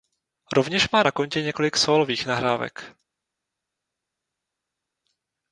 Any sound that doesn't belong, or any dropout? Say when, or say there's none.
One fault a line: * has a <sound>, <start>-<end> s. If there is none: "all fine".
all fine